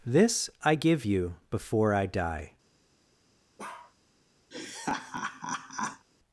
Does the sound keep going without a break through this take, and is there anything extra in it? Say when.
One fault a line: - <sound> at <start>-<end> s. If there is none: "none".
- bark at 3.6-3.9 s
- laugh at 4.5-6.1 s